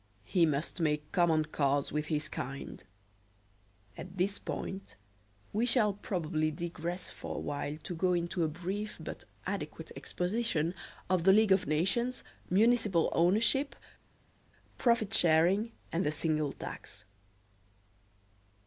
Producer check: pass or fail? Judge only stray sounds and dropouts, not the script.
pass